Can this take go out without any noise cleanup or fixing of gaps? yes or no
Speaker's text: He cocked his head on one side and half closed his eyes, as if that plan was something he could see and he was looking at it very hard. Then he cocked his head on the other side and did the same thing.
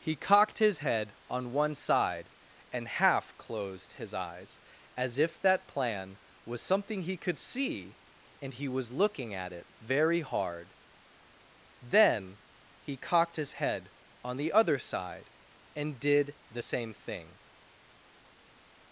yes